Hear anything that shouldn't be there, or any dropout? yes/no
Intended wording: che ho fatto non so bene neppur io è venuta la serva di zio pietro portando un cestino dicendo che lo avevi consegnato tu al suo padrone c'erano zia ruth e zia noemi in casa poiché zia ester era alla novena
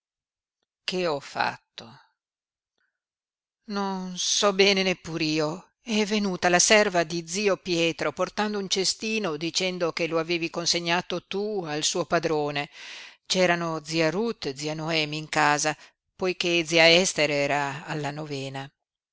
no